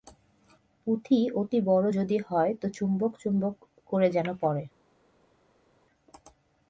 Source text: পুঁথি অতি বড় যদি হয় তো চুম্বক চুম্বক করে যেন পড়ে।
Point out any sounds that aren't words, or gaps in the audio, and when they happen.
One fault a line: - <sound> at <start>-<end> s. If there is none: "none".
none